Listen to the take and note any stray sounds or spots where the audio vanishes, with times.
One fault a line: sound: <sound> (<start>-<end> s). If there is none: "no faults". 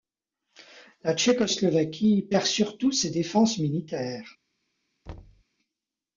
sound: thud (5.1-5.4 s)